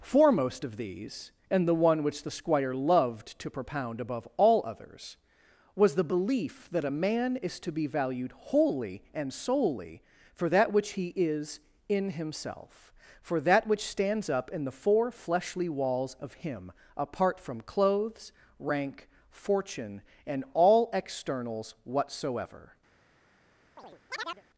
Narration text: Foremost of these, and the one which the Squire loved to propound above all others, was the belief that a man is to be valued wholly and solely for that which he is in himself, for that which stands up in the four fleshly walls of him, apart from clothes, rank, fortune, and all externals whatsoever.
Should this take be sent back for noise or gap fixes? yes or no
yes